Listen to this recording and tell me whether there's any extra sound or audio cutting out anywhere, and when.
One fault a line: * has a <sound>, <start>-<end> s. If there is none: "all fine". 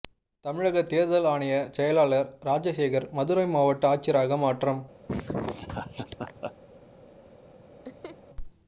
* has a laugh, 5.1-6.5 s
* has a laugh, 7.8-8.2 s